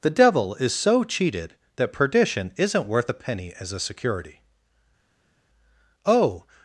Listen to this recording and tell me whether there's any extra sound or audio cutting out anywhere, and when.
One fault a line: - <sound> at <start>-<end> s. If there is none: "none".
none